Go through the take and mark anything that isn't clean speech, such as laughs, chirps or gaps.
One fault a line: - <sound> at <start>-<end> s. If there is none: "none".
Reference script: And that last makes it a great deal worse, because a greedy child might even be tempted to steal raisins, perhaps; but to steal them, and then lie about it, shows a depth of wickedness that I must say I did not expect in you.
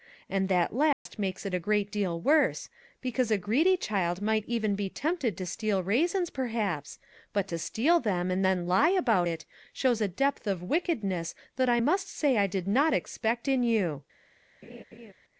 - dropout at 0.9-1.1 s
- laugh at 14.6-15.1 s